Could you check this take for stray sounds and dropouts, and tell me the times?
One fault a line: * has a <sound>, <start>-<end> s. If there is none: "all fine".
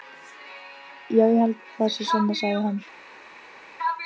all fine